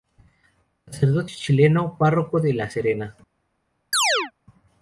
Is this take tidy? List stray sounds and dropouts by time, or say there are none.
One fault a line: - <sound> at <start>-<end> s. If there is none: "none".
- chirp at 3.9-4.3 s